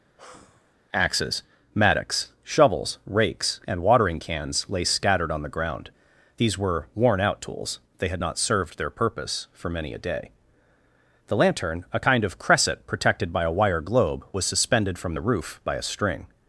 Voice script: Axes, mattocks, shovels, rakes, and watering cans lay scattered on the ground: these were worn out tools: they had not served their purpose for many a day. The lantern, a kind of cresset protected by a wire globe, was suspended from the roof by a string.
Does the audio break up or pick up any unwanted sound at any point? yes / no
yes